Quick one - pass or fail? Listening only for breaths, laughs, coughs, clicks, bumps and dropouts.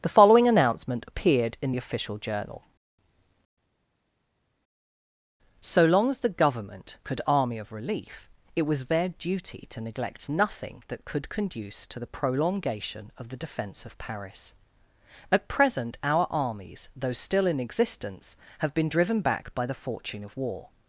pass